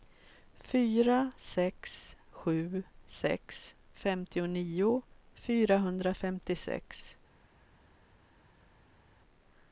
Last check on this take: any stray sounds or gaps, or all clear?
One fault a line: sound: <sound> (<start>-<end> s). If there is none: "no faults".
no faults